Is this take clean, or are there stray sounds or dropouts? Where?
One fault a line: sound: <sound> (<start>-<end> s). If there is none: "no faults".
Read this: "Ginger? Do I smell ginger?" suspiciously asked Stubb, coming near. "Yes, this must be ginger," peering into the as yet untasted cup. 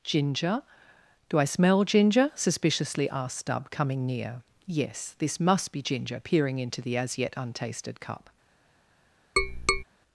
sound: tap (9.4-9.8 s)